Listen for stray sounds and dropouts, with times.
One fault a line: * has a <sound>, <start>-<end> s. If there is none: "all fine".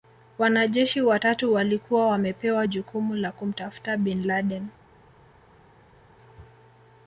all fine